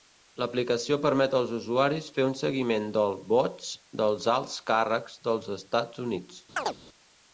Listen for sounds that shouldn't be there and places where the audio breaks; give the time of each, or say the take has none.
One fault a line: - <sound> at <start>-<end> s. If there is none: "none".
- chirp at 6.6-6.8 s